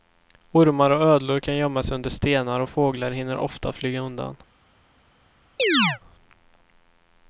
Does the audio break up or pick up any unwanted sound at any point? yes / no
yes